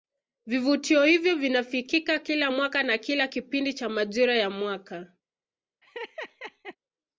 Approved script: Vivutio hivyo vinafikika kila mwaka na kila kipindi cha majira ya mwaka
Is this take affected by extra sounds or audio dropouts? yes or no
yes